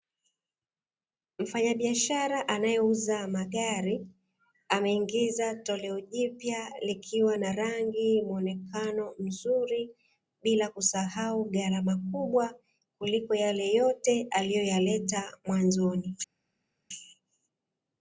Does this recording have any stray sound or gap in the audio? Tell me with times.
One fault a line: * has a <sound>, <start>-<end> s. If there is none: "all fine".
all fine